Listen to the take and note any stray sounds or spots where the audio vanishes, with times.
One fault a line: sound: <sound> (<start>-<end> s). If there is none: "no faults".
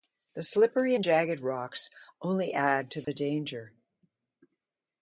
sound: dropout (3.0-3.1 s)